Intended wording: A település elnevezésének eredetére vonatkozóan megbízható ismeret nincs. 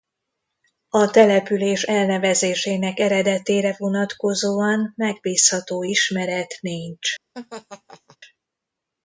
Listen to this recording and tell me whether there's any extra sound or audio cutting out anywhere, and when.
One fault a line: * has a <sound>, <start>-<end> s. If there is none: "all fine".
* has a laugh, 7.3-8.2 s